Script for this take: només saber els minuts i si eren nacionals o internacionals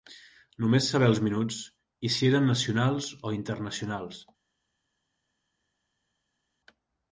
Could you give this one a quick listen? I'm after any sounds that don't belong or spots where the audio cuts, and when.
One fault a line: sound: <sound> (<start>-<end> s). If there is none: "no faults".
no faults